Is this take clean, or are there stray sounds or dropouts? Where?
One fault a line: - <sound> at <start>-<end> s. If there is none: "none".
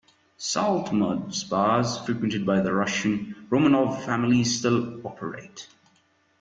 none